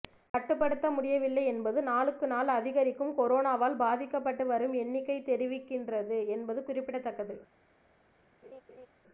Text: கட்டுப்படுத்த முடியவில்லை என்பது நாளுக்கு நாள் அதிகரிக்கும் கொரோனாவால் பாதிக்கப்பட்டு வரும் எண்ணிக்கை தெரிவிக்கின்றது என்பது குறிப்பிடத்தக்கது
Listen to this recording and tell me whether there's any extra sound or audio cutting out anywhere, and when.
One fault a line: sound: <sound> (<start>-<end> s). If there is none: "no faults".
sound: laugh (8.4-8.9 s)